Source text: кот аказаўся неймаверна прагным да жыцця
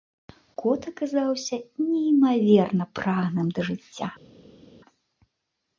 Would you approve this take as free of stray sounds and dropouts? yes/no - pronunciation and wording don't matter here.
yes